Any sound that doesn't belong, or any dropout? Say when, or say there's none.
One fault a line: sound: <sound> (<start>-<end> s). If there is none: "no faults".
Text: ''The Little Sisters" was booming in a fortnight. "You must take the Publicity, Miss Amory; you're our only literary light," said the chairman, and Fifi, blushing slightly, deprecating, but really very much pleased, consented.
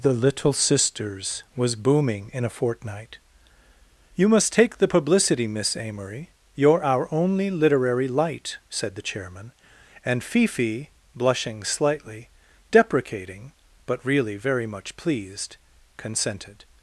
no faults